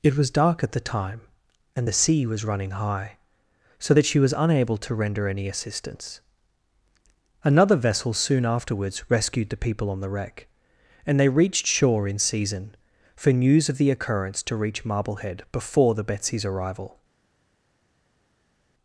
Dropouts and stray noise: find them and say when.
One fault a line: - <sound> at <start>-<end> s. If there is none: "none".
none